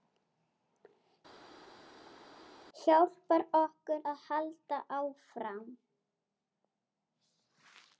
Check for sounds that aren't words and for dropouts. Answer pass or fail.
pass